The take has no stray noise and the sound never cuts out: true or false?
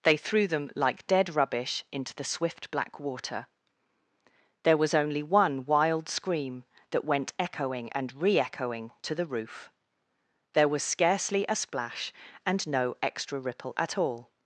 true